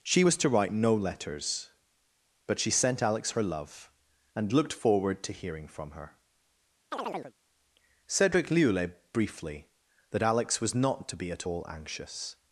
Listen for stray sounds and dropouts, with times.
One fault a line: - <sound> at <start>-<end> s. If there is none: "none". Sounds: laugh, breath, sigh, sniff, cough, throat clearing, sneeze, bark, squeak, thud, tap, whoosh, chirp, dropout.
- chirp at 6.9-7.3 s